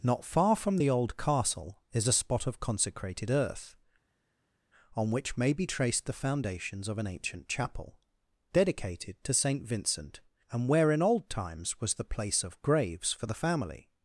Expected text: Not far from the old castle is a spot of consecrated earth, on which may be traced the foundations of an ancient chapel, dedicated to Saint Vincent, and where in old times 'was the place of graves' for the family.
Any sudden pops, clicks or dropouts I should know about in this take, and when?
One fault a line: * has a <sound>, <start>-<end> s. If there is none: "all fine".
all fine